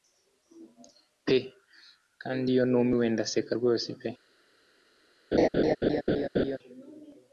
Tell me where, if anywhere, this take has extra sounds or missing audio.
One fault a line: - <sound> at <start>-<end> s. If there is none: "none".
- laugh at 5.3-6.6 s